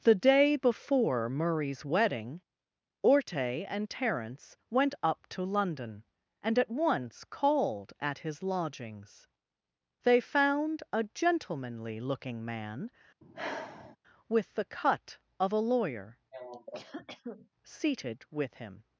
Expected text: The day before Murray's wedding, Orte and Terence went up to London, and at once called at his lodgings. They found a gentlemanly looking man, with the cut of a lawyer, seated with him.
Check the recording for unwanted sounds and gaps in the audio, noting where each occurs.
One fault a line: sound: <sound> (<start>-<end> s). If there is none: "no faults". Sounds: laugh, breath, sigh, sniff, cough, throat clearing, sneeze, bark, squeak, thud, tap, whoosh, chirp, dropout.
sound: sigh (13.2-14.0 s)
sound: cough (16.3-17.5 s)